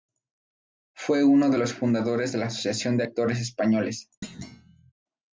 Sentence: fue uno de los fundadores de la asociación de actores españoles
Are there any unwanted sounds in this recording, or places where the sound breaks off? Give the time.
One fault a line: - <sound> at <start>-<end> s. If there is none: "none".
- thud at 4.2-4.9 s